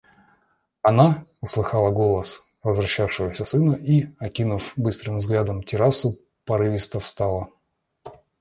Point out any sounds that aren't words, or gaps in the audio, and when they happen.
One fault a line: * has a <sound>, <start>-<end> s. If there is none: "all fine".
all fine